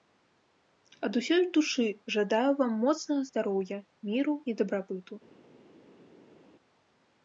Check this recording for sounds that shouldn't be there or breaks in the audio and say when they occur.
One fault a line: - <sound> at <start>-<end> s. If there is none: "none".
none